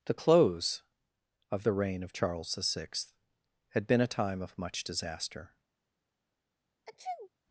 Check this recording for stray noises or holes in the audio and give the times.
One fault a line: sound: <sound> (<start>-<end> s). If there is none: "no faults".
sound: sneeze (6.9-7.3 s)